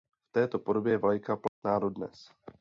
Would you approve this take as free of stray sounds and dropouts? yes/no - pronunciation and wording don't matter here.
no